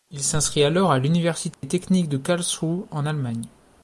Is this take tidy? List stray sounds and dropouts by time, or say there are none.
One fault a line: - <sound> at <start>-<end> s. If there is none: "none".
- dropout at 1.5-1.6 s